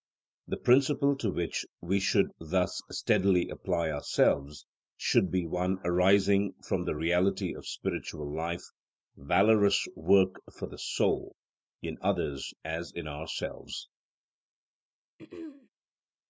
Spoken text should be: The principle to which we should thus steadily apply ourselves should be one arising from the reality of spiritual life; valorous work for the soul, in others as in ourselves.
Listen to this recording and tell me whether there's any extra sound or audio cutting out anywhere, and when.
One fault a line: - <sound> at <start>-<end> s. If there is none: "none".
- throat clearing at 15.2-15.7 s